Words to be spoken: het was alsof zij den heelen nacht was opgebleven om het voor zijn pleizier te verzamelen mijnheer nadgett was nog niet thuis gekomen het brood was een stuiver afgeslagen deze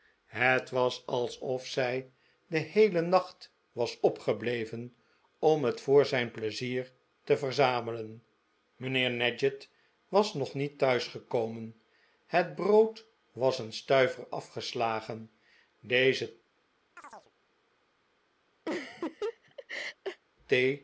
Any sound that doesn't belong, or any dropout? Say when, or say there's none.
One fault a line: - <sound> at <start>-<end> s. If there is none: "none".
- chirp at 17.0-17.3 s
- laugh at 18.7-20.2 s